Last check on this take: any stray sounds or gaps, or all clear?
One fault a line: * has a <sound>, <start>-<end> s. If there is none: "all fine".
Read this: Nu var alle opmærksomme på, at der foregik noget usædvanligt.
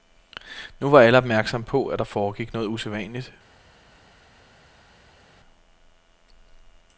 all fine